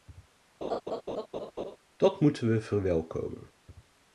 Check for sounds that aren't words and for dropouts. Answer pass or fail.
fail